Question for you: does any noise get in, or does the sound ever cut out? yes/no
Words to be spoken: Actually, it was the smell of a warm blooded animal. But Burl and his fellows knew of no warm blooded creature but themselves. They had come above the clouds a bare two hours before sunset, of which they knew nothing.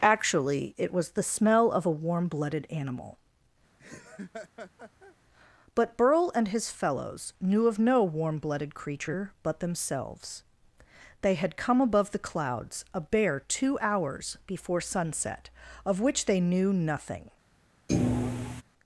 yes